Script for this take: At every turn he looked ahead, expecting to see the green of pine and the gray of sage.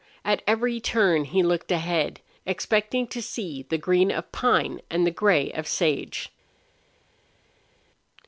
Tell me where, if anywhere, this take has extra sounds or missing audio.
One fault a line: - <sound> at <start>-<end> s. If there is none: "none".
none